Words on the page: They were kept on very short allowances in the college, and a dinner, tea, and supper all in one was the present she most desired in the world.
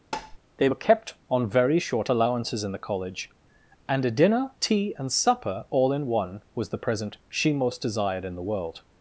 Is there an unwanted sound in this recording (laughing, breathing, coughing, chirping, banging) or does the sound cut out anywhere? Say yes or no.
yes